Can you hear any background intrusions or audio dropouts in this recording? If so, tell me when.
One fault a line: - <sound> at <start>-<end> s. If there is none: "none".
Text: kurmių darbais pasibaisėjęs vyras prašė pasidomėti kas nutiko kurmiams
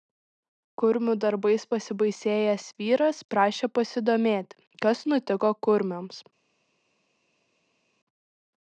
none